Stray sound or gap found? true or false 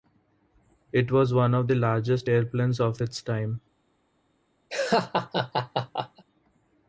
true